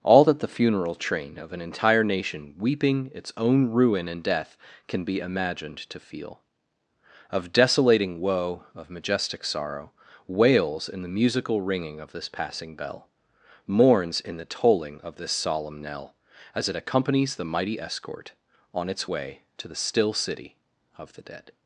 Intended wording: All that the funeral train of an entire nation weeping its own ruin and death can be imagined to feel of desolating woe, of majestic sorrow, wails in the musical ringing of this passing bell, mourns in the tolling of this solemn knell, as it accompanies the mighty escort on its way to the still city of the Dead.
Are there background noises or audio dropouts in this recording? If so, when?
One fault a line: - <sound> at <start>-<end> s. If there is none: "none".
none